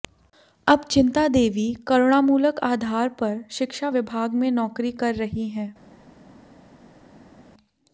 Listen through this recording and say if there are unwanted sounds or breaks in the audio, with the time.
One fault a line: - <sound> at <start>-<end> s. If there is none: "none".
none